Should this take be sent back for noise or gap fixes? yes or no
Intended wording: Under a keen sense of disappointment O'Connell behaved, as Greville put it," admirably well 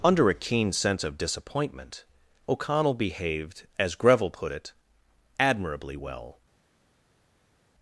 no